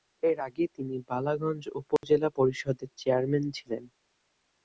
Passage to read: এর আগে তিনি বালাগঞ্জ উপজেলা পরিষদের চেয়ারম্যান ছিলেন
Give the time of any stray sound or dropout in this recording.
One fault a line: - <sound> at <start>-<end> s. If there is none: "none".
- dropout at 2.0-2.0 s